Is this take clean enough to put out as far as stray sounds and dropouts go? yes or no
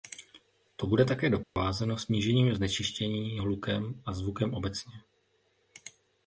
no